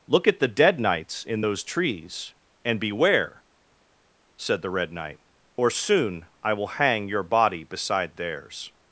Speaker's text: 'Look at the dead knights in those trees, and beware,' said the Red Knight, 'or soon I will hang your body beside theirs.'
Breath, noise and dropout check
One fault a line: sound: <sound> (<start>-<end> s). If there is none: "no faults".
no faults